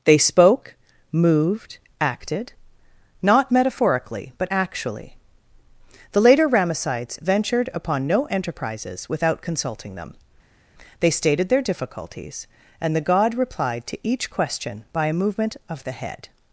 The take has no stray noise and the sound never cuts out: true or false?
true